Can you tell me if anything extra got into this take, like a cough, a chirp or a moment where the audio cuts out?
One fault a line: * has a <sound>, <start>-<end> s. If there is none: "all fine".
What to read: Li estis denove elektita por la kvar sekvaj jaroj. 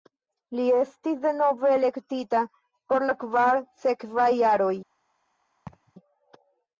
* has a laugh, 5.7-5.9 s